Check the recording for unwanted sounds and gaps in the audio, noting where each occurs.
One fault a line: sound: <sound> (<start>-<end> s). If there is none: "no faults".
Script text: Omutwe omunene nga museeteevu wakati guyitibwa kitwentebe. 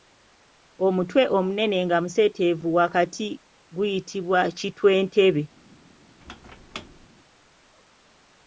sound: squeak (6.2-7.1 s)